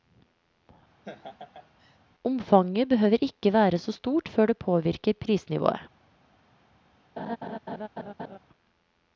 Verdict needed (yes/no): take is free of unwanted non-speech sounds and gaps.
no